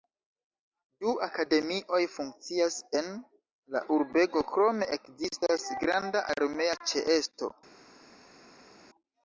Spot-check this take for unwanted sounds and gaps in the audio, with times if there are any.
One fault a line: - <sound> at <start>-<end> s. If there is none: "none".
none